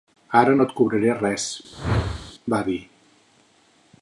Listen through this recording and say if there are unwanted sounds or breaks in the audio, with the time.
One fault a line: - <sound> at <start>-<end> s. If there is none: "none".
- whoosh at 1.7-2.3 s